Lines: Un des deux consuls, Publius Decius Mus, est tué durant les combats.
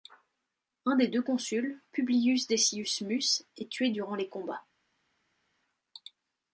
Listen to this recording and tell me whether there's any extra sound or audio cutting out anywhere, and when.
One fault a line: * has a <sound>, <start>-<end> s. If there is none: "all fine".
all fine